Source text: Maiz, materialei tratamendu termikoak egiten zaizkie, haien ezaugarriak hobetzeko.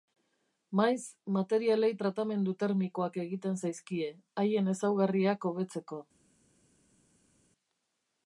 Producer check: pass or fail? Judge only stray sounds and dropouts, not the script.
pass